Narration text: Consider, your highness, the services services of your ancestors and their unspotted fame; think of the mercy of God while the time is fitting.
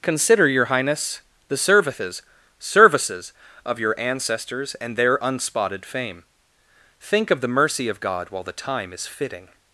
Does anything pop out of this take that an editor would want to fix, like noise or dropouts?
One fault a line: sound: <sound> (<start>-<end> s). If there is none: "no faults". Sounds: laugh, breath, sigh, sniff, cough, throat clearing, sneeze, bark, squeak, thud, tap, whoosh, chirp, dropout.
no faults